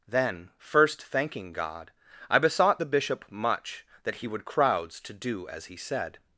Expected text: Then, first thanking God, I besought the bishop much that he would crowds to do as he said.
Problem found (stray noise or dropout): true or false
false